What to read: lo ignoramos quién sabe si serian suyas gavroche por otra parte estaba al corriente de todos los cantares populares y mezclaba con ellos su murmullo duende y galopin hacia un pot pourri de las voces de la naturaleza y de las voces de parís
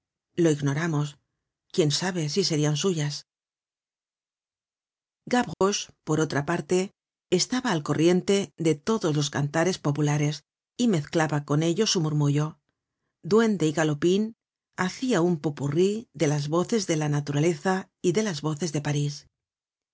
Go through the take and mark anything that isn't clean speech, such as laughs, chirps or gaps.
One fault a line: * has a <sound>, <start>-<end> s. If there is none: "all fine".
* has a dropout, 5.5-5.6 s